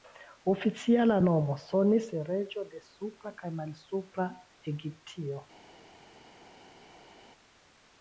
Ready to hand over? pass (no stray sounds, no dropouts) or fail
pass